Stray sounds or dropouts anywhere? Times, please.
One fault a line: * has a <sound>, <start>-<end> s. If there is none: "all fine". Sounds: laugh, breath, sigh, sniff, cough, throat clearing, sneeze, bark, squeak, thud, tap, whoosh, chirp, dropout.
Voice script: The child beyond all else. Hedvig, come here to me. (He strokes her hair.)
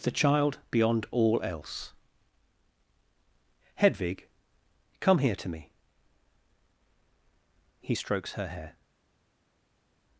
all fine